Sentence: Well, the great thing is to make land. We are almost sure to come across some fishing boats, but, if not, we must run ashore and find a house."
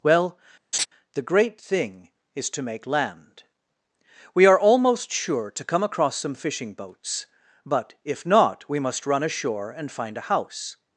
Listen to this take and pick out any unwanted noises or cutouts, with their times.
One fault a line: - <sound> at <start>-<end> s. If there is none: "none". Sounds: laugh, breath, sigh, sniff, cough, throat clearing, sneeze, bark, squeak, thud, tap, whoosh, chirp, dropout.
- laugh at 0.7-0.9 s